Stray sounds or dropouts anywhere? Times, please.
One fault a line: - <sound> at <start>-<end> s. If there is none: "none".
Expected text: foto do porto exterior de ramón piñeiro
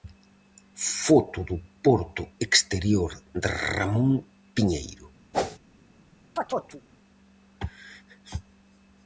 - whoosh at 5.3-5.6 s
- chirp at 6.4-6.8 s